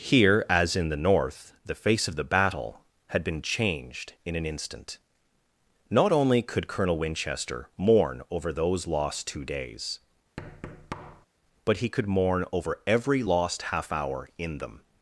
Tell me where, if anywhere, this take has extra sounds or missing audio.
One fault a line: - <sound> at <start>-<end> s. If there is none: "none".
- thud at 10.4-11.3 s